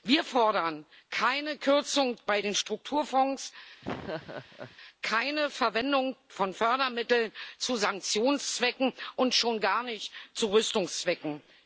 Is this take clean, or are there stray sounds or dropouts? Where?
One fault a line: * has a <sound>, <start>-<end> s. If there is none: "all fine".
* has a laugh, 3.8-4.8 s